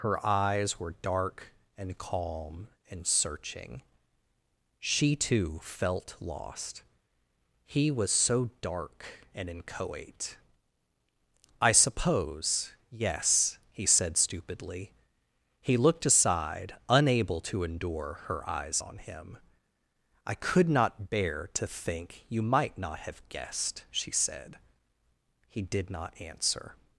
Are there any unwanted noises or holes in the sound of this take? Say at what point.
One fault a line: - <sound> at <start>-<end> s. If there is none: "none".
none